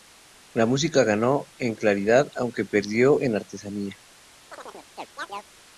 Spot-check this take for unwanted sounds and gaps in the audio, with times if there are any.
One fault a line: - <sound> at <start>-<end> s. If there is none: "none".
- chirp at 4.5-5.5 s